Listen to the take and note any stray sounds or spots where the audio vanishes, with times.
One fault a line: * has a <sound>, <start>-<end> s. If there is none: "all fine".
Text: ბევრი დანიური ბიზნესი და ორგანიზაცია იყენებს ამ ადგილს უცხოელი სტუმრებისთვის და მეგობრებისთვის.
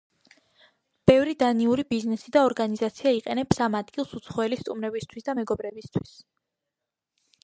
all fine